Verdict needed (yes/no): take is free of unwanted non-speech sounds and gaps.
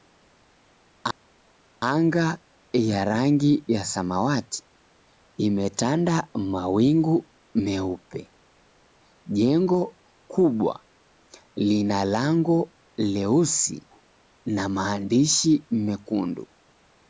yes